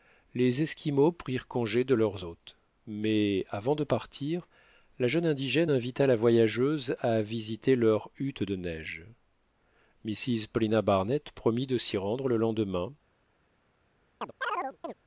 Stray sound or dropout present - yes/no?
yes